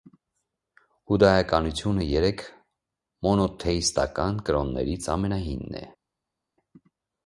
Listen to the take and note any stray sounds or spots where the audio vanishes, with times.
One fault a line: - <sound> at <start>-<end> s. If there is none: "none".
none